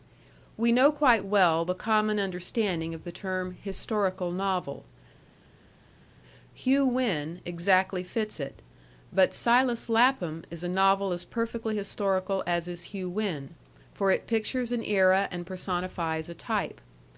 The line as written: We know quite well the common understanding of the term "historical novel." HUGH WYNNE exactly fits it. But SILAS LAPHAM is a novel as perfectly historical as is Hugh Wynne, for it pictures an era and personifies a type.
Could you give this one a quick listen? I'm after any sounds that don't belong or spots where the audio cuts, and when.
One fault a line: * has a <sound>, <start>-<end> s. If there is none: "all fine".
all fine